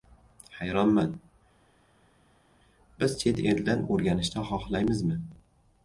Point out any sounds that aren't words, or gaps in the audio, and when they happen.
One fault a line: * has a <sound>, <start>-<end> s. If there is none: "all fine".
all fine